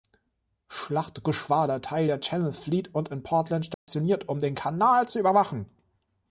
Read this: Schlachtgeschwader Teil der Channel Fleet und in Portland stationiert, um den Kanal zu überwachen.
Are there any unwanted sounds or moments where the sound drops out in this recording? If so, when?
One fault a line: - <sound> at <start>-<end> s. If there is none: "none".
- dropout at 3.7-3.9 s